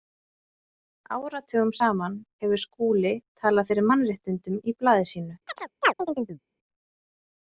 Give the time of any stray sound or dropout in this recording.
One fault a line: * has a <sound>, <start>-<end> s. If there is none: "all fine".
* has a chirp, 5.5-6.4 s